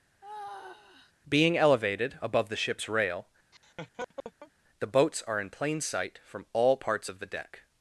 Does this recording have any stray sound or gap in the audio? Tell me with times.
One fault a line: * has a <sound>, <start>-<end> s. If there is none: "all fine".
* has a sigh, 0.2-1.1 s
* has a laugh, 3.5-4.5 s